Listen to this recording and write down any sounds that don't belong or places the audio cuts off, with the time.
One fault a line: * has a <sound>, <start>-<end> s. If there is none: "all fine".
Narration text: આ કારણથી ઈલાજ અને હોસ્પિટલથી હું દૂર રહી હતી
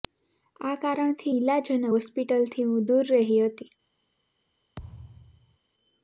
* has a thud, 4.8-5.6 s